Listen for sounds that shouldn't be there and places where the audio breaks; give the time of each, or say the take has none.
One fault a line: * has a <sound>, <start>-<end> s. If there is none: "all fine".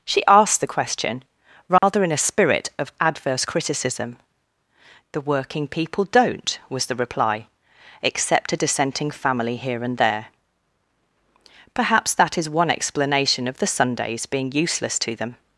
* has a dropout, 1.8-1.8 s